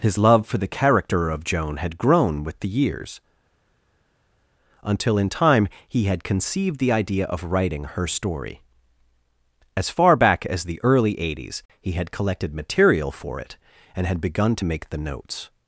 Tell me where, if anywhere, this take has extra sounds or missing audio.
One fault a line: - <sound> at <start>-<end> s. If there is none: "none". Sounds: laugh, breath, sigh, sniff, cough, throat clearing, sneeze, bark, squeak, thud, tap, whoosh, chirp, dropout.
none